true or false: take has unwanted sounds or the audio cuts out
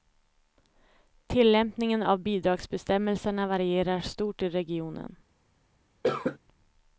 true